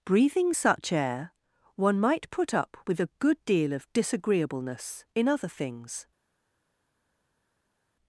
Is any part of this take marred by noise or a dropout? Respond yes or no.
no